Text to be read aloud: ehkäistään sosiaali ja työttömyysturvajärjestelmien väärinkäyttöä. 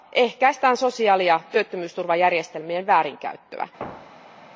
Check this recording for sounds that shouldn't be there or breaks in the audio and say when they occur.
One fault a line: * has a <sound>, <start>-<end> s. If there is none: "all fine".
* has a thud, 3.8-4.5 s